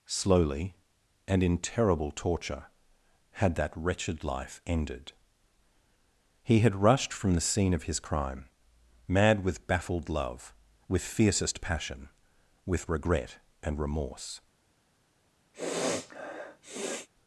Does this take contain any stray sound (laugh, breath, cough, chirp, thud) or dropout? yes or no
yes